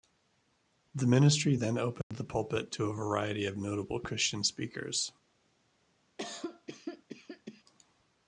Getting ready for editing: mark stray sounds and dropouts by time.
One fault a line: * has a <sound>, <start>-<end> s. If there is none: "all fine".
* has a dropout, 2.0-2.1 s
* has a cough, 6.2-7.6 s